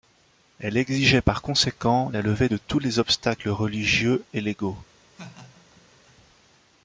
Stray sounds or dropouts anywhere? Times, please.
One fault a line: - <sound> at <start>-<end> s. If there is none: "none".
- laugh at 5.1-6.2 s